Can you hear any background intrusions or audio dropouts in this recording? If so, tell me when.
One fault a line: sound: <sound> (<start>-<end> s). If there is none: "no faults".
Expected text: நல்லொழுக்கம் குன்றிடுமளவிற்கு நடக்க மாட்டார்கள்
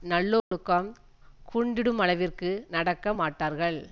sound: dropout (0.4-0.5 s)